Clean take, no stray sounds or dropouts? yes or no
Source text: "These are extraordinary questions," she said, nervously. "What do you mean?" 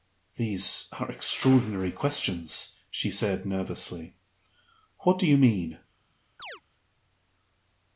no